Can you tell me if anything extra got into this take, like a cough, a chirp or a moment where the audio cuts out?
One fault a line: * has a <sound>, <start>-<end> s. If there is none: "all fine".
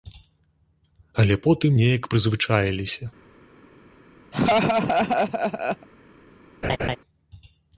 * has a laugh, 4.3-5.9 s
* has a laugh, 6.6-7.0 s